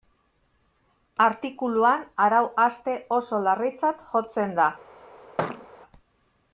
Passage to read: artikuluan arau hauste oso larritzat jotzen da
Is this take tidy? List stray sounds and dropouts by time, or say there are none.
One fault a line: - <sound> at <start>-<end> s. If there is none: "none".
- thud at 5.4-5.7 s